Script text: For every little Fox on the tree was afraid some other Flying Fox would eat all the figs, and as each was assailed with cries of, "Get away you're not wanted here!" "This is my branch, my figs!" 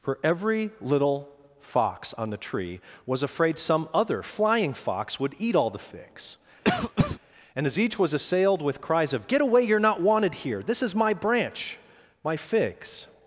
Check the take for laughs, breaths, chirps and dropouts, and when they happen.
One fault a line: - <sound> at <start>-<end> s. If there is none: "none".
- cough at 6.6-7.2 s